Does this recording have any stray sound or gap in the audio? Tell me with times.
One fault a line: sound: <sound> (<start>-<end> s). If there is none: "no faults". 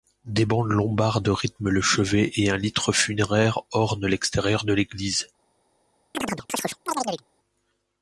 sound: chirp (6.1-7.2 s)